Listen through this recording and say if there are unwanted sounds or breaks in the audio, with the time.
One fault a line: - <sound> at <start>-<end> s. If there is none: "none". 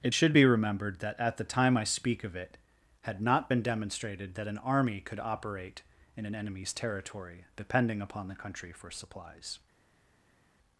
none